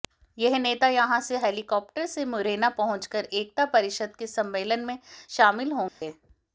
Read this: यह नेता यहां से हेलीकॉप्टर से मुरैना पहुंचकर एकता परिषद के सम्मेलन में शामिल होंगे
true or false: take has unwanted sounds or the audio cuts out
true